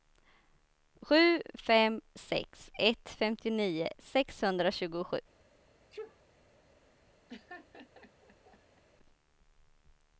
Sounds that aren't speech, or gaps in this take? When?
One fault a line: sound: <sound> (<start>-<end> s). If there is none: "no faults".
sound: sneeze (5.9-6.2 s)
sound: laugh (7.3-8.8 s)